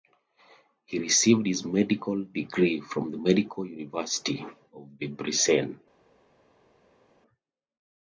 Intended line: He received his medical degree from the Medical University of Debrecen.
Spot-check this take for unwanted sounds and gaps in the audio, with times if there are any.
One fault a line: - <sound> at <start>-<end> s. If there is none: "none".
none